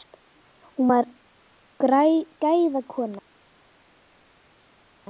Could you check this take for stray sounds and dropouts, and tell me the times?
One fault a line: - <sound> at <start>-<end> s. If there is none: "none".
none